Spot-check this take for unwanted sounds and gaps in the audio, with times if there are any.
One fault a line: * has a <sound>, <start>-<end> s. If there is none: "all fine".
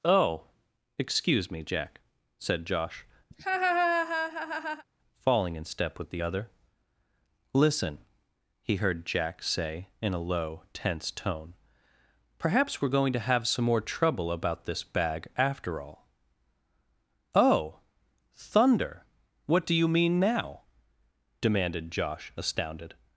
* has a laugh, 3.3-4.8 s